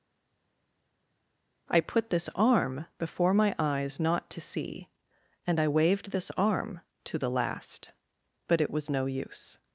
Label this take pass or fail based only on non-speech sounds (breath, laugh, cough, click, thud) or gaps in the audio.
pass